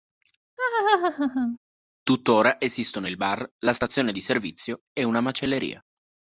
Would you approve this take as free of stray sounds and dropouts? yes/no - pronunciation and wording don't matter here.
no